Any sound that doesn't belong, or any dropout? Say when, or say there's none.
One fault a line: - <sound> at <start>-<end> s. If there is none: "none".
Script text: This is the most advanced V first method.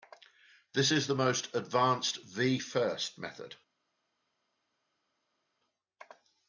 none